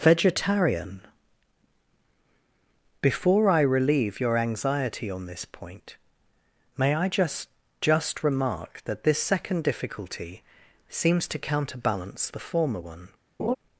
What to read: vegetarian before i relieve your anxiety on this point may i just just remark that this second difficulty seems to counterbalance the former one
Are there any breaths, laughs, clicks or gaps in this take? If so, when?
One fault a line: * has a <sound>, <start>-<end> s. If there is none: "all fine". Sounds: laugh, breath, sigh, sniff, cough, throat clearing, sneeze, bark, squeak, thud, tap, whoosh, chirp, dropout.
* has a laugh, 13.4-13.6 s